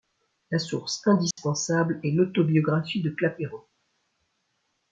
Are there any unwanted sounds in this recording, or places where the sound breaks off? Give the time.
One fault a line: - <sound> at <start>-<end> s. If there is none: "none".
- dropout at 1.3-1.4 s